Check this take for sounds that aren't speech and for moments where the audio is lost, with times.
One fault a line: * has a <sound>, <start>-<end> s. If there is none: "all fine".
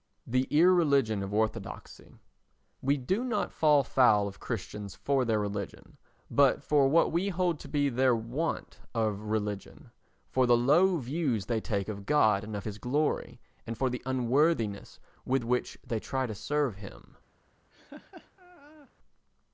* has a laugh, 17.7-18.9 s